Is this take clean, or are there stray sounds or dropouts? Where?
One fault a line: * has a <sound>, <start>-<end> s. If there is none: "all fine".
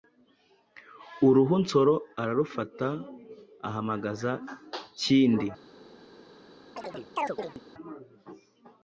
* has a chirp, 6.8-7.6 s